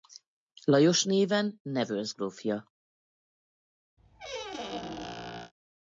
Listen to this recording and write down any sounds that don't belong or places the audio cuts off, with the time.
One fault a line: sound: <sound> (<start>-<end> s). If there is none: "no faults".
sound: squeak (4.0-5.5 s)